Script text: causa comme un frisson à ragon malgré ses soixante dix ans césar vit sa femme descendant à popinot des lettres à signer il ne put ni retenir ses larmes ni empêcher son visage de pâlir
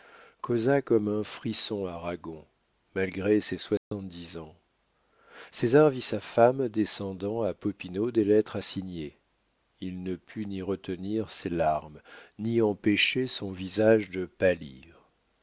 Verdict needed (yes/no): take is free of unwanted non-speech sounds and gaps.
no